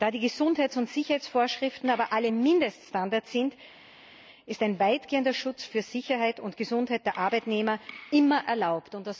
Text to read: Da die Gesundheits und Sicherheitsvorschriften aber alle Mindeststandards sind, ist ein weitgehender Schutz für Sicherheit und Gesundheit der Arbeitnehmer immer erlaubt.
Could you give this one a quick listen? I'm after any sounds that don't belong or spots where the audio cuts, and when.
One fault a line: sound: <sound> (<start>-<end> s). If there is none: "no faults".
no faults